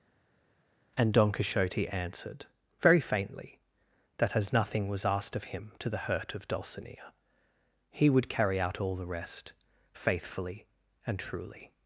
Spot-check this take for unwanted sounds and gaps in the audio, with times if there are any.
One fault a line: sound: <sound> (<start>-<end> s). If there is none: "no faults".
no faults